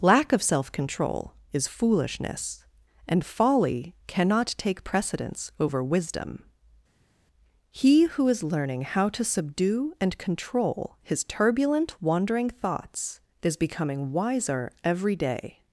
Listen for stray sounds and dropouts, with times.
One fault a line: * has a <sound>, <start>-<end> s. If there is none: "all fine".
all fine